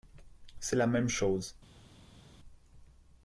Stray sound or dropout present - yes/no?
no